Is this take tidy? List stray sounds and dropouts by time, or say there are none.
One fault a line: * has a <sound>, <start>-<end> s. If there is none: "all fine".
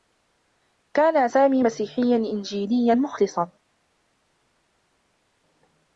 all fine